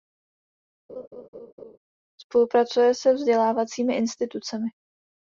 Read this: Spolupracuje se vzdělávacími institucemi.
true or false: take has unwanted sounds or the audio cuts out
true